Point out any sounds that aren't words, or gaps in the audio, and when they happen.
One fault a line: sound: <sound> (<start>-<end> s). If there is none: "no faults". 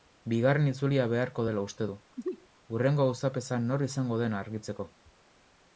sound: sneeze (2.2-2.5 s)